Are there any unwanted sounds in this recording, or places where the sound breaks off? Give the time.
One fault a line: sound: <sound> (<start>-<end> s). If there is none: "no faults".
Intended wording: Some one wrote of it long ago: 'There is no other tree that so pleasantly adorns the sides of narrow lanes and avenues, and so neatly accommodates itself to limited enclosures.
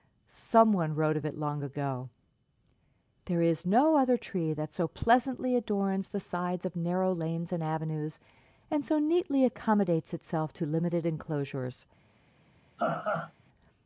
sound: laugh (12.8-13.3 s)